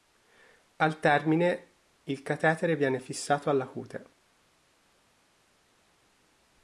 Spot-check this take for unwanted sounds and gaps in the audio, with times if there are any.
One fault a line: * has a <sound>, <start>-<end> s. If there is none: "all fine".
all fine